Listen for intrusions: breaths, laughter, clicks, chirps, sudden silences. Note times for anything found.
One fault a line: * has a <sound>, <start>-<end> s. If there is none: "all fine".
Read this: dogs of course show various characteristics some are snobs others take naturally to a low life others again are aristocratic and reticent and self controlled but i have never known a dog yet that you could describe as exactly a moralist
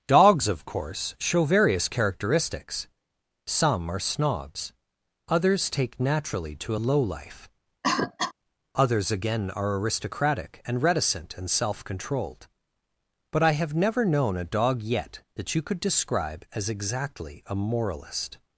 * has a cough, 7.8-8.3 s